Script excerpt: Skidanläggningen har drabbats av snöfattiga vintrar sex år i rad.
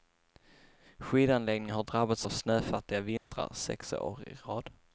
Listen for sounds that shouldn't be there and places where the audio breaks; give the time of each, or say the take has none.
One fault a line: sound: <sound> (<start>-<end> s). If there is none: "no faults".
sound: dropout (3.2-3.3 s)